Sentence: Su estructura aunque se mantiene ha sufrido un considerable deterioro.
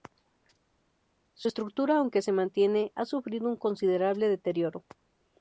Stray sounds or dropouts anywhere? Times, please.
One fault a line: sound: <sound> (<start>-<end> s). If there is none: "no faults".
no faults